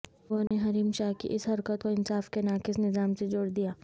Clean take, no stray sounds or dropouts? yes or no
no